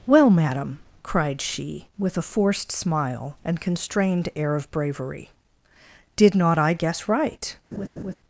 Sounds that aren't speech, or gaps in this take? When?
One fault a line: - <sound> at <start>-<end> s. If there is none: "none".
- laugh at 7.7-8.2 s